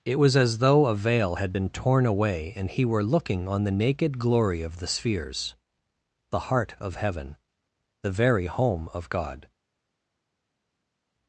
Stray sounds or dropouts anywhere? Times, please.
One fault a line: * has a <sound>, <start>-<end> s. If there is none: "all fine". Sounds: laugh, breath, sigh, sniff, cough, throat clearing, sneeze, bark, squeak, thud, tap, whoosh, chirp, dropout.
all fine